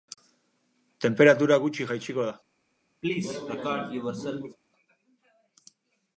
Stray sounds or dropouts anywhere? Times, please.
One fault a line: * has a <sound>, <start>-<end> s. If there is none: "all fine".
* has a cough, 3.0-4.6 s